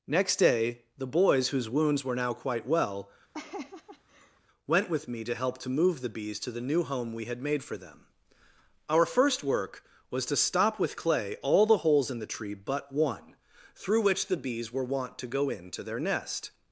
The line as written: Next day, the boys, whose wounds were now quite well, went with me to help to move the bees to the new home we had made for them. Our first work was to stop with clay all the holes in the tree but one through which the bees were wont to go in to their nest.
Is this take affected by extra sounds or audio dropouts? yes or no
yes